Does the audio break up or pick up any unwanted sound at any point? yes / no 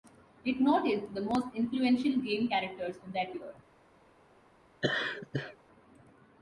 yes